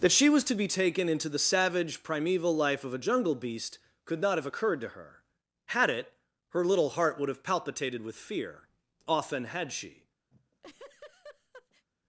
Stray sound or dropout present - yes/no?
yes